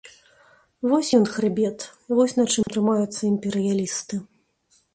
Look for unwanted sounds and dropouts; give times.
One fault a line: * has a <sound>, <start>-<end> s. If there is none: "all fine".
* has a dropout, 2.6-2.7 s